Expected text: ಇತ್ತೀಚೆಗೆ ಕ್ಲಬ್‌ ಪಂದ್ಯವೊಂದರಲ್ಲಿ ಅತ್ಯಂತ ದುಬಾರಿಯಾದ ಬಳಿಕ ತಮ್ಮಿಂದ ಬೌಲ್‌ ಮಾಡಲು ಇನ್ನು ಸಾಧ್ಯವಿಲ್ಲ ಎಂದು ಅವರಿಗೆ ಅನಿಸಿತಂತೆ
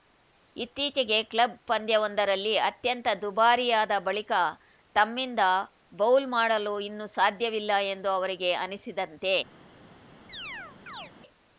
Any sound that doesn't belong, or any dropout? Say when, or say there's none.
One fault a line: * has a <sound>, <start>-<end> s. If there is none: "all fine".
* has a chirp, 10.3-11.1 s